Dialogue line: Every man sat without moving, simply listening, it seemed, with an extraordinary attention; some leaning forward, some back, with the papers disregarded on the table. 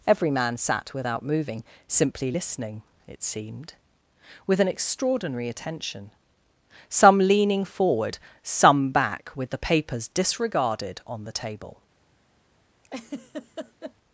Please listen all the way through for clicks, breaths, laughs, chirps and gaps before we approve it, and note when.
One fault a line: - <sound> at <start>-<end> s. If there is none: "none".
- laugh at 12.8-13.9 s